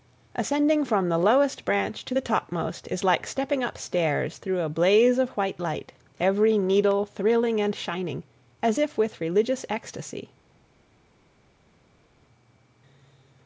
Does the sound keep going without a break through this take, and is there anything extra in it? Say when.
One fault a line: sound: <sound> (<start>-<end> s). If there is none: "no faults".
no faults